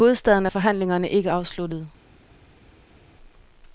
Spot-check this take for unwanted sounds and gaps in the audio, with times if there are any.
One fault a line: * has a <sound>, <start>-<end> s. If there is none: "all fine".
all fine